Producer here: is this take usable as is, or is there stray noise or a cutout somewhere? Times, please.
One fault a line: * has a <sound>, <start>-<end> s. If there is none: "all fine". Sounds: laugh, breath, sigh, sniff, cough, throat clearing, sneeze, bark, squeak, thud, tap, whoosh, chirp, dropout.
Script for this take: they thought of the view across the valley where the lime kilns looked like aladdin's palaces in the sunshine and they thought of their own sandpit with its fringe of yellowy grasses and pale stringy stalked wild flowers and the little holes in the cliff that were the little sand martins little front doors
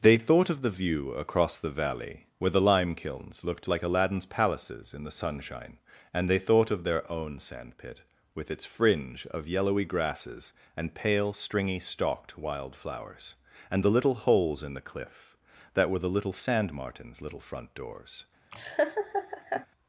* has a laugh, 18.5-19.7 s